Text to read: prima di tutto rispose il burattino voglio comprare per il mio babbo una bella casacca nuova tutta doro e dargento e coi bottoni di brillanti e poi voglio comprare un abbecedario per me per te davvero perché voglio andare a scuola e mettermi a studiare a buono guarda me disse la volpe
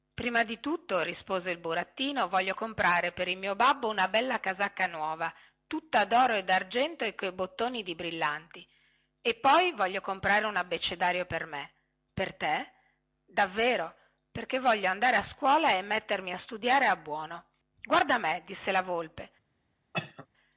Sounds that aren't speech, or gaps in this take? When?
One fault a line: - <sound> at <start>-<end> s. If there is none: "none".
- cough at 19.9-20.3 s